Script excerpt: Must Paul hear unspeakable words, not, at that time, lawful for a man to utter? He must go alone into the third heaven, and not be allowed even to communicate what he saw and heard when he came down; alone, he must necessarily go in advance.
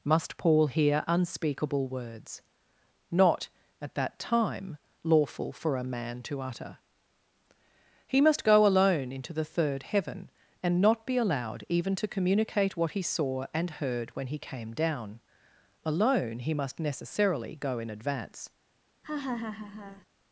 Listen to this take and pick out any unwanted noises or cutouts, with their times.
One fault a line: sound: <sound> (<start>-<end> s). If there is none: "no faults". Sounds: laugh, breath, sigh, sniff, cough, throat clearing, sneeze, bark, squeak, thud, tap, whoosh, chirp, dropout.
sound: laugh (19.0-20.1 s)